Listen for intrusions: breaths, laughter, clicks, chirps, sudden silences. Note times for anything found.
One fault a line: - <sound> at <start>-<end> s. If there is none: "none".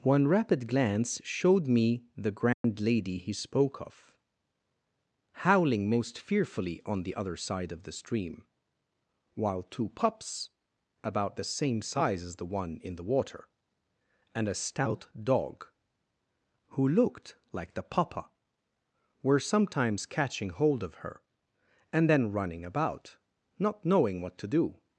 - dropout at 2.5-2.6 s